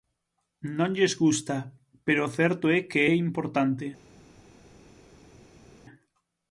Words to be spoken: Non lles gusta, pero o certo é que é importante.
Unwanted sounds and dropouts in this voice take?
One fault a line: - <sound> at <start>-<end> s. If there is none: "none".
none